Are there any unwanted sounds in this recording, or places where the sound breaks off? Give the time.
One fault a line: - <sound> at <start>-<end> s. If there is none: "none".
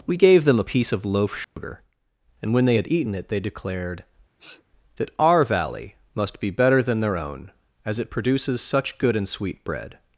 - dropout at 1.4-1.6 s
- sniff at 4.4-4.6 s